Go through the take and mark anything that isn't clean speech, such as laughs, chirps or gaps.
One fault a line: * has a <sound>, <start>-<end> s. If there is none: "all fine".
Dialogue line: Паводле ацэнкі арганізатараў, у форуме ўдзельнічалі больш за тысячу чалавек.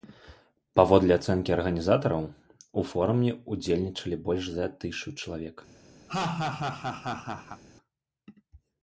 * has a laugh, 6.1-7.6 s